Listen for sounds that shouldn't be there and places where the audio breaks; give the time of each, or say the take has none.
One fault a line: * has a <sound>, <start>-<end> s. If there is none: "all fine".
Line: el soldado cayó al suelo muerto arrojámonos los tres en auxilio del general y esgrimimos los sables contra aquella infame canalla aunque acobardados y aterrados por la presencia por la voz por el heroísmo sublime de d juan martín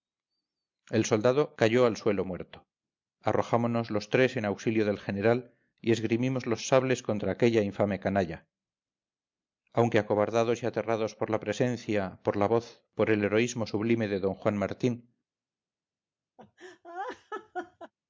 * has a laugh, 16.4-17.9 s